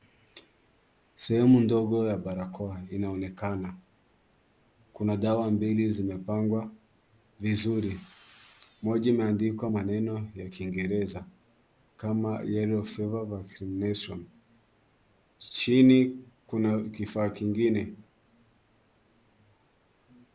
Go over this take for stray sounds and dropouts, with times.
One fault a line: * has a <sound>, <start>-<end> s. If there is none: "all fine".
all fine